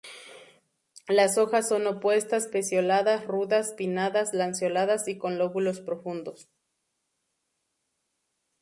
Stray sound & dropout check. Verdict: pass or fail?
pass